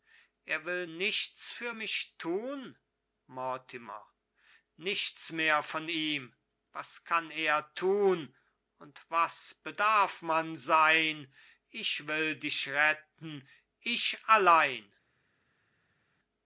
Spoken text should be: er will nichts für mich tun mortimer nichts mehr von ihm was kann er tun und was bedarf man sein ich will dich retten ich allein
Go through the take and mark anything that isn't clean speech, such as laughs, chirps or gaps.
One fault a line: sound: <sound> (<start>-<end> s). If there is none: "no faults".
no faults